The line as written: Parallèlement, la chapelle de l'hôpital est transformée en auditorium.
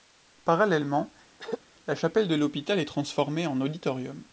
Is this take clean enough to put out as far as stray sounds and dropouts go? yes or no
no